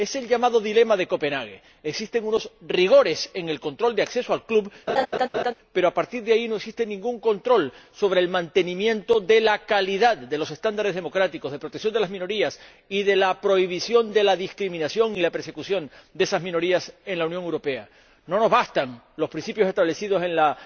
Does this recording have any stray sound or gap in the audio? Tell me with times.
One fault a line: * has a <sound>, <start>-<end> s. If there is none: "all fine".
* has a laugh, 4.9-5.5 s